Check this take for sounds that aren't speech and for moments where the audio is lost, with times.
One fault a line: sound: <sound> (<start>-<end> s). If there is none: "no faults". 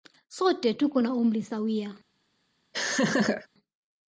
sound: laugh (2.7-3.5 s)